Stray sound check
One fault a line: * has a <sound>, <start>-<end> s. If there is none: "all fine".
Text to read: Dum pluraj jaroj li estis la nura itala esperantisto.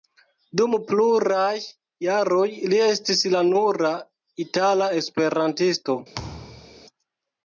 * has a thud, 6.1-6.9 s